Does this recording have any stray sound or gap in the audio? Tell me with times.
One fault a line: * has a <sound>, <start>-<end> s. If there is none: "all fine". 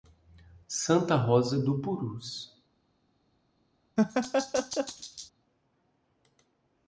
* has a laugh, 4.0-5.3 s